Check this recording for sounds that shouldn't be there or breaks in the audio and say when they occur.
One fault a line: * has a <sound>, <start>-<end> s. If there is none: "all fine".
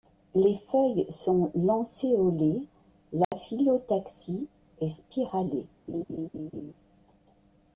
* has a dropout, 3.2-3.3 s
* has a laugh, 5.9-6.7 s